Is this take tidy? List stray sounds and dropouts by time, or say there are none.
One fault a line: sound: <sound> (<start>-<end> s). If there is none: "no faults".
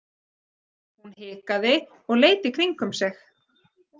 no faults